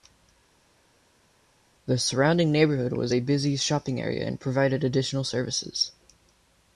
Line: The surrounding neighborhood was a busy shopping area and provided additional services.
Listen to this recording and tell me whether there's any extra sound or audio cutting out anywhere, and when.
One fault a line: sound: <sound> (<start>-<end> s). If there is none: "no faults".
no faults